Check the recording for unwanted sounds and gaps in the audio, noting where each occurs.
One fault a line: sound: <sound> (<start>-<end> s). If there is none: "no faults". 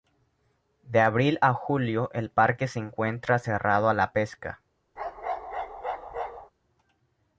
sound: bark (5.0-6.5 s)